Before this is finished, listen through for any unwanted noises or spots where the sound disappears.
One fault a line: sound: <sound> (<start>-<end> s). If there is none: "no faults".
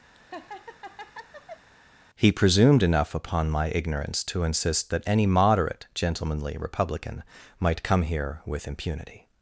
sound: laugh (0.2-1.7 s)